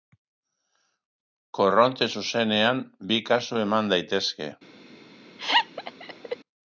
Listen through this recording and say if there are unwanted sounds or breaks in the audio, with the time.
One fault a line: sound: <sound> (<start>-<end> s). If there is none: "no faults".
sound: laugh (5.4-6.4 s)